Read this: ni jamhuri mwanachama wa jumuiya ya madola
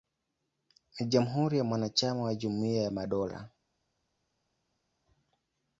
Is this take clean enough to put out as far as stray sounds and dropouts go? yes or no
yes